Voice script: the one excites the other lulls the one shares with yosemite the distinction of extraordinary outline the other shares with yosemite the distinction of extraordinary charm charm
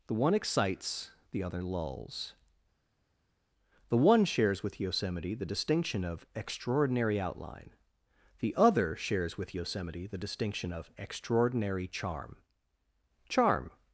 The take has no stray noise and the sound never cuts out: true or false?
true